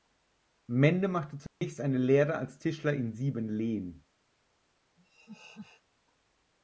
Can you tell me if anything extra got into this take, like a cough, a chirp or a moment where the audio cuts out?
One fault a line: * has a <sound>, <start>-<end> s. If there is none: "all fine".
* has a dropout, 1.5-1.6 s
* has a laugh, 5.0-5.8 s